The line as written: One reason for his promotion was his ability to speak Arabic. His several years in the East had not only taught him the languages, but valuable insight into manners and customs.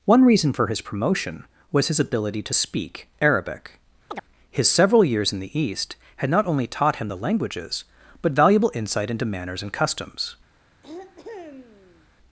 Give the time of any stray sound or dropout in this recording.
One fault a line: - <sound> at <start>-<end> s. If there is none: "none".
- chirp at 4.1-4.2 s
- throat clearing at 10.8-12.1 s